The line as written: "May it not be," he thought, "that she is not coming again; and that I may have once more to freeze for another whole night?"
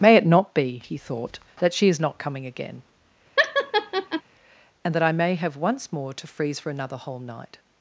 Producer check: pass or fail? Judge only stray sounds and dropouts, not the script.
fail